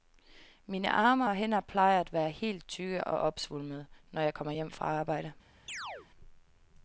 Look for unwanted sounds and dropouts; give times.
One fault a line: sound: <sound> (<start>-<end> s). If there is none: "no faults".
sound: chirp (5.7-6.1 s)